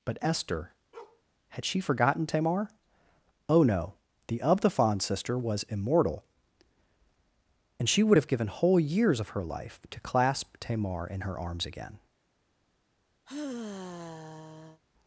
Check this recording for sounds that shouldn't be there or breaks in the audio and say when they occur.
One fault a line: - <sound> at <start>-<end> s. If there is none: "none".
- bark at 0.9-1.2 s
- sigh at 13.3-14.8 s